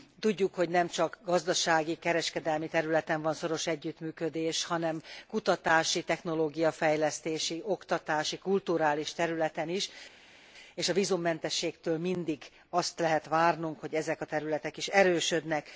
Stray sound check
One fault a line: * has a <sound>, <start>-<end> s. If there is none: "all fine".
all fine